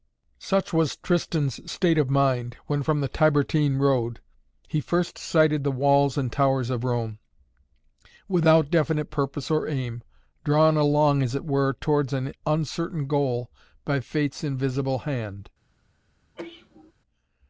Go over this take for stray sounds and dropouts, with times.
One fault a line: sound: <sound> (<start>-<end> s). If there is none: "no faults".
sound: sneeze (16.4-16.9 s)